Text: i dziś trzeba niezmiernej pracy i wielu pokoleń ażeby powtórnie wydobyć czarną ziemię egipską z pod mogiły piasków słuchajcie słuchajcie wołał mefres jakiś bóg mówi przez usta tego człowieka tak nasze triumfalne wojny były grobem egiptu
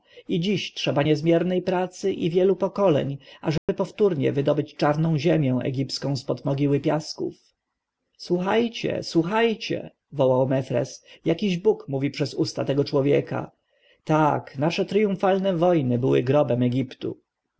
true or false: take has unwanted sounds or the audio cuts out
true